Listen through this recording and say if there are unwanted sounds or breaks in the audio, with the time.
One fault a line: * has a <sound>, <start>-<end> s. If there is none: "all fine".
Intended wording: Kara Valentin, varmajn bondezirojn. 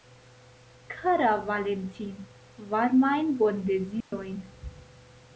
* has a dropout, 4.0-4.1 s